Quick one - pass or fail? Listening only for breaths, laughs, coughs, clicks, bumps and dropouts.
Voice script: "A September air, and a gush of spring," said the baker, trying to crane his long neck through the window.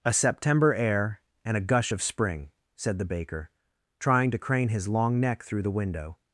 pass